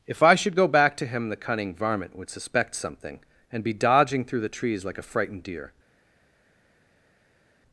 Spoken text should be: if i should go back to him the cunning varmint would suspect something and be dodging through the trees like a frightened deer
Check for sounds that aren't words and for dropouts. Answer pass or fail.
pass